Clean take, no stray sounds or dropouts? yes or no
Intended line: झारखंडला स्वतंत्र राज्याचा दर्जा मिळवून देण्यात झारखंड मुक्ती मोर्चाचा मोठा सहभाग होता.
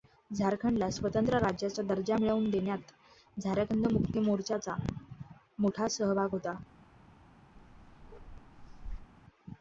no